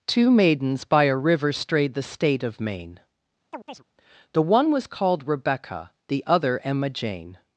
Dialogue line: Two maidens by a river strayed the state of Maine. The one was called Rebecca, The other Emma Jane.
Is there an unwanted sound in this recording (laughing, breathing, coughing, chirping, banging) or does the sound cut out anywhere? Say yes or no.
yes